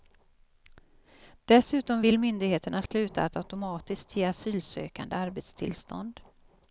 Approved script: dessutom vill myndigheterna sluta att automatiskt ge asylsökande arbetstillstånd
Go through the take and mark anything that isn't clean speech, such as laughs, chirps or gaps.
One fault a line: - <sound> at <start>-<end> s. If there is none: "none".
- dropout at 2.9-2.9 s